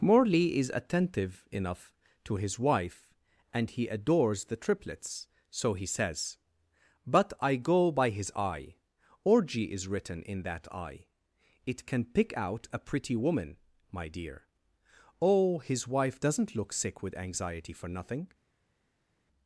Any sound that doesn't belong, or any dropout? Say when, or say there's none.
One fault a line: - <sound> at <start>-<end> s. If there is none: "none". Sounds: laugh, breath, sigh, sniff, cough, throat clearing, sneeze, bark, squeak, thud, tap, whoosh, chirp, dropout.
none